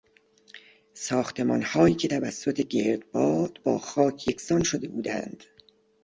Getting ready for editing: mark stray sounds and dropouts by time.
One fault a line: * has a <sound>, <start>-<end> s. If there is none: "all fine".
all fine